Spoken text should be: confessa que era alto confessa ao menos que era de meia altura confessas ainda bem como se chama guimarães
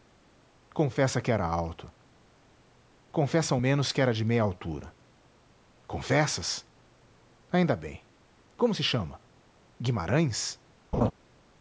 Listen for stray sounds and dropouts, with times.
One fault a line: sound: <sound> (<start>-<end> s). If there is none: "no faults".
sound: laugh (10.9-11.1 s)